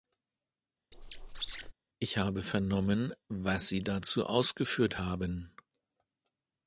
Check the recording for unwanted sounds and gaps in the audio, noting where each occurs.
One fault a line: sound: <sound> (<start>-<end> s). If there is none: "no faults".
sound: squeak (0.9-1.7 s)